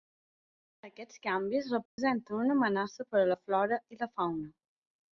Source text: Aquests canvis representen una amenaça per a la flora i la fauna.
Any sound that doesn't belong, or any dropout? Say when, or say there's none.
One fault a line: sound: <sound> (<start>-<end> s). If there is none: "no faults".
sound: dropout (1.9-2.0 s)